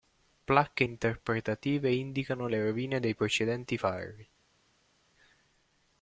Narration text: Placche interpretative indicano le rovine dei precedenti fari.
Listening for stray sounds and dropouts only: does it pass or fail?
pass